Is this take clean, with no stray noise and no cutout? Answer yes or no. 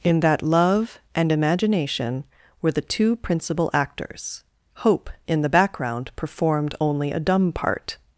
yes